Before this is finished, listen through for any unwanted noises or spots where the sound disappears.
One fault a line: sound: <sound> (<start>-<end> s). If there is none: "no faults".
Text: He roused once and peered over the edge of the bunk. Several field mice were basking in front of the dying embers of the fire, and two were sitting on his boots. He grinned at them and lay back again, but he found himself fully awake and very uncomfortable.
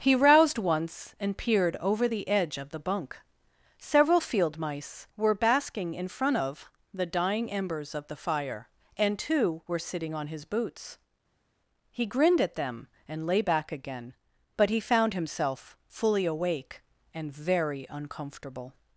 no faults